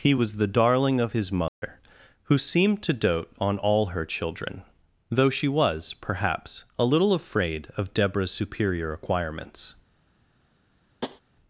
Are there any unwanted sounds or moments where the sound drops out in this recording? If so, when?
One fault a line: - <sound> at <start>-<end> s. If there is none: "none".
- dropout at 1.5-1.6 s
- tap at 11.0-11.2 s